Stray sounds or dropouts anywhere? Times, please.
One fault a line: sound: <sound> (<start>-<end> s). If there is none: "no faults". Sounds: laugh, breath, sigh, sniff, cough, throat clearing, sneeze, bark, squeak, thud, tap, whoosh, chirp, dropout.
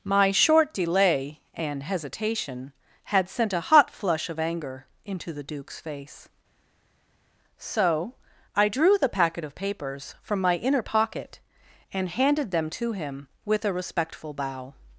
no faults